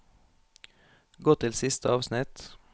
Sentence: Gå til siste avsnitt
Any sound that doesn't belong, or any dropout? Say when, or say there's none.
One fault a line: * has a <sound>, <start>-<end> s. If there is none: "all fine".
all fine